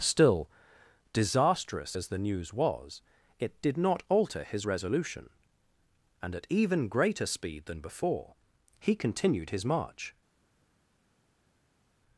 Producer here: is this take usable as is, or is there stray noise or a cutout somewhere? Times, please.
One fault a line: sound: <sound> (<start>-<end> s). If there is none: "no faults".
no faults